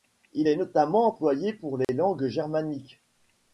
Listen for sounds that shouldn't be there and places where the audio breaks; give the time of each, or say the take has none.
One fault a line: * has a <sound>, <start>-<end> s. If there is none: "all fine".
* has a dropout, 1.8-1.9 s